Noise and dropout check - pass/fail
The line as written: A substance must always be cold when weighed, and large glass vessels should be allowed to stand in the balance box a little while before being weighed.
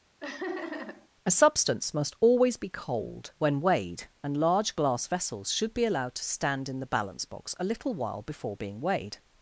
fail